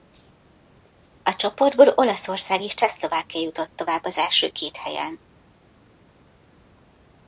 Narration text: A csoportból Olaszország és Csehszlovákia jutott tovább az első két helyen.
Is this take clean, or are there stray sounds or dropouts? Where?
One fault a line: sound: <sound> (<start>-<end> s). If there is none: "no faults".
no faults